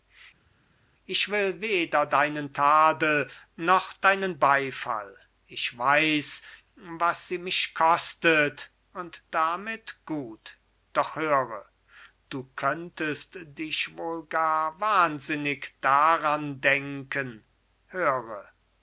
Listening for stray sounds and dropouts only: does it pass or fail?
pass